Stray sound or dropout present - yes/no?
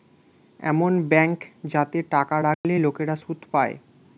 yes